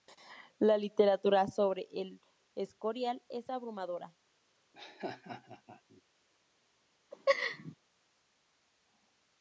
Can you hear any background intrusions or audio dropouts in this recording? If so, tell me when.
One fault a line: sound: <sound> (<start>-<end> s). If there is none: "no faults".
sound: laugh (4.7-6.0 s)
sound: laugh (7.1-7.7 s)